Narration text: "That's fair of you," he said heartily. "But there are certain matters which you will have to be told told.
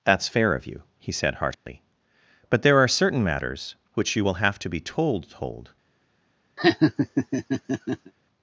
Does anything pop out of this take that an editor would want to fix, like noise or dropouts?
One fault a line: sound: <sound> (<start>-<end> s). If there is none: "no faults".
sound: dropout (1.5-1.7 s)
sound: laugh (6.6-8.1 s)